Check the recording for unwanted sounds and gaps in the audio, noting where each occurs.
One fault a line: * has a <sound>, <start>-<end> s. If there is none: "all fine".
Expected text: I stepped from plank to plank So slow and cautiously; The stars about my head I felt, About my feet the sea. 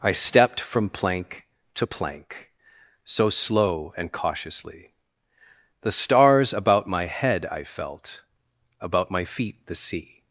all fine